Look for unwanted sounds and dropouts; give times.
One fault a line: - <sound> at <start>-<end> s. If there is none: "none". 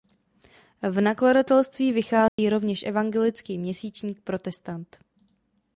- dropout at 2.3-2.4 s